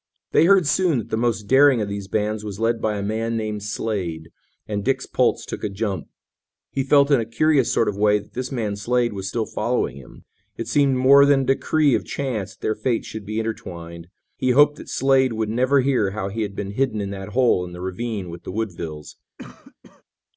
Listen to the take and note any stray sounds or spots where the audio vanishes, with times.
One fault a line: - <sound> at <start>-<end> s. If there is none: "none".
- cough at 19.4-20.0 s